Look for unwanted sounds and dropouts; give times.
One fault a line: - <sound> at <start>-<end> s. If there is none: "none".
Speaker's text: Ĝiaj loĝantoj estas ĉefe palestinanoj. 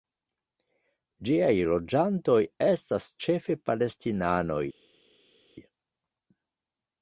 none